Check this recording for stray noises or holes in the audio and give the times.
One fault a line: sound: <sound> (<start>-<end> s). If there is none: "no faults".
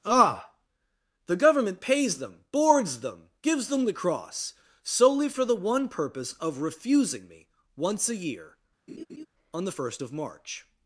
sound: laugh (8.9-9.3 s)